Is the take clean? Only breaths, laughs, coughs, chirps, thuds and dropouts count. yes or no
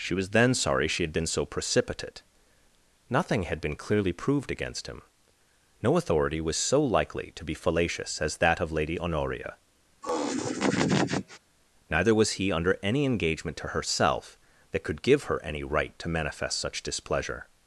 no